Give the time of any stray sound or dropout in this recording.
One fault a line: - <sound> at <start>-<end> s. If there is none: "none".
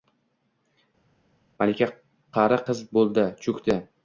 none